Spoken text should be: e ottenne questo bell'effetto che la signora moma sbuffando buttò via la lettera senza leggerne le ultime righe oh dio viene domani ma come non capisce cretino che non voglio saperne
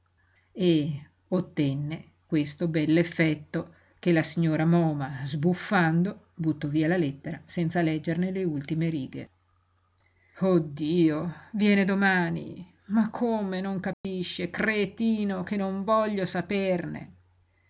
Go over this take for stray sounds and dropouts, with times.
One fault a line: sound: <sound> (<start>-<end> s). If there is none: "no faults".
sound: dropout (13.9-14.0 s)